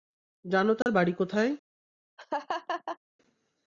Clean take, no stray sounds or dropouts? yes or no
no